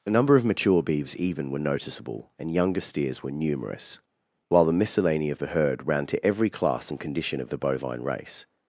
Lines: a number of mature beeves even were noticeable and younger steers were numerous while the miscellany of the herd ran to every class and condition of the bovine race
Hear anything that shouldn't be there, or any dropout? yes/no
no